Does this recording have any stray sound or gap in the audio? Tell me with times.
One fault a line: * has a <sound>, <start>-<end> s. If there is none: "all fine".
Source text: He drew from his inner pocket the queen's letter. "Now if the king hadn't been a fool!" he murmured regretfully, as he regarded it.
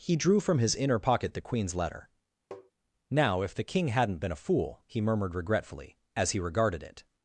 * has a tap, 2.5-2.7 s